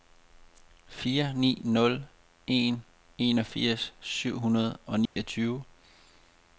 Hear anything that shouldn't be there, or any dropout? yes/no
yes